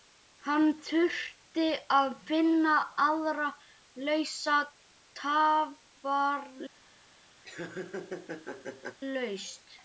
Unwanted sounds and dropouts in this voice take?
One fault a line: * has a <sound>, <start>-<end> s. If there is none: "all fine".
* has a laugh, 7.4-9.0 s